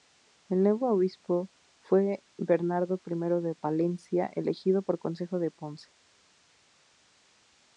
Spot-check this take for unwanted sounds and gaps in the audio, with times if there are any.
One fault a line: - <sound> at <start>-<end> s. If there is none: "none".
none